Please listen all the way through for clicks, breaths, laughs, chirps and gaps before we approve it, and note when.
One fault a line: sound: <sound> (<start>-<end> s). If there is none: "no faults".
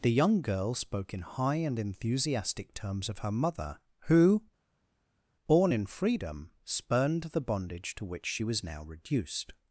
no faults